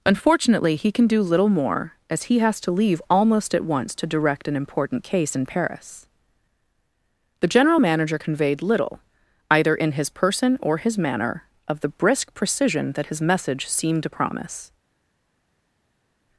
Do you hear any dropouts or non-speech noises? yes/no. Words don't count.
no